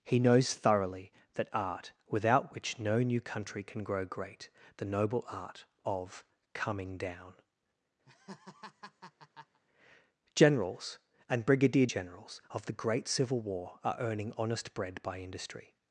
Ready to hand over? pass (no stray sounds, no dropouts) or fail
fail